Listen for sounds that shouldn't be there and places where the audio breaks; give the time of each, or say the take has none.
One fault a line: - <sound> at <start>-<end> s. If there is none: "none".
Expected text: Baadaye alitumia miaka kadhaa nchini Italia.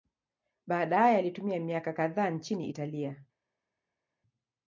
none